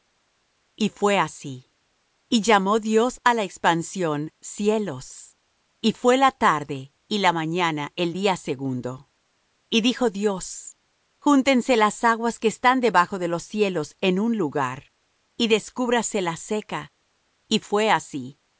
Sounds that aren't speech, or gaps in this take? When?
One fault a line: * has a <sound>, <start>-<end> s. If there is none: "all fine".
all fine